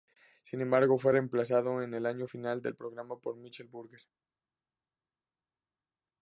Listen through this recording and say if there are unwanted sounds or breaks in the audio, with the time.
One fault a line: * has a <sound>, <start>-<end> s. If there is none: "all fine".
all fine